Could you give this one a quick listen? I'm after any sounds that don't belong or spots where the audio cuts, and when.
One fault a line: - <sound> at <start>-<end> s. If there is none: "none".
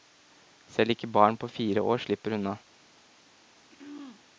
- throat clearing at 3.7-4.2 s